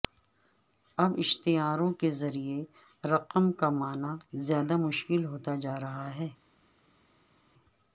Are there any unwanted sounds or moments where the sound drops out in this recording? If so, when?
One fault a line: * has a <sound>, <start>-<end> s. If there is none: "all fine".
all fine